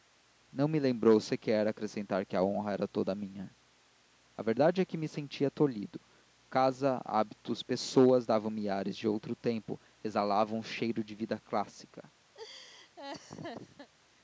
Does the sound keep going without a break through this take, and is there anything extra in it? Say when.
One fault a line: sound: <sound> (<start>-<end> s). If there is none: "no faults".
sound: laugh (12.3-13.9 s)